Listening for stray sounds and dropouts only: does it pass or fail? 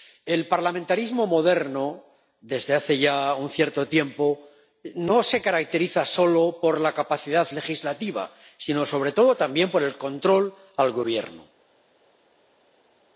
pass